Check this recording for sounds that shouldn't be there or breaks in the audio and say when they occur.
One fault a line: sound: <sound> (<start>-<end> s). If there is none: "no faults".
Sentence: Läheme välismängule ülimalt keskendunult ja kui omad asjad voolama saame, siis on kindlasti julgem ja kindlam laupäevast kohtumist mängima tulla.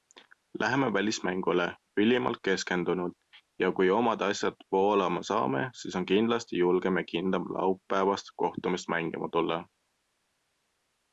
no faults